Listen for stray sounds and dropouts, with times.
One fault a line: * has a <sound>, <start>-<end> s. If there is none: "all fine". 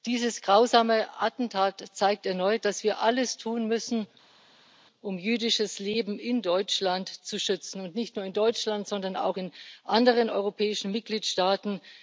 all fine